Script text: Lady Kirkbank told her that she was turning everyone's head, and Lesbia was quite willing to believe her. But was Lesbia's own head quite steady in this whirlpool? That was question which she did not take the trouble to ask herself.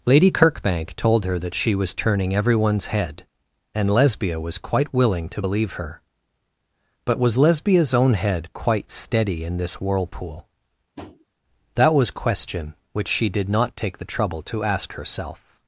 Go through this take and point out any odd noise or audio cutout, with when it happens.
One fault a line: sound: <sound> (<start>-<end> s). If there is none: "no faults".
sound: tap (11.0-11.3 s)